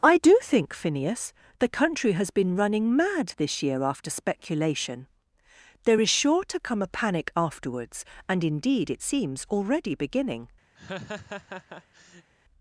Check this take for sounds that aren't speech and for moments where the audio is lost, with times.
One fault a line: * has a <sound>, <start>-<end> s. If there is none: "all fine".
* has a laugh, 10.7-12.3 s